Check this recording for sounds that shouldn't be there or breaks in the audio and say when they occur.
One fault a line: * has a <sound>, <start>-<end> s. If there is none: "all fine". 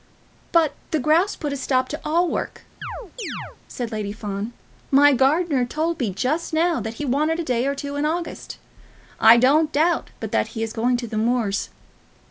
* has a chirp, 2.8-3.6 s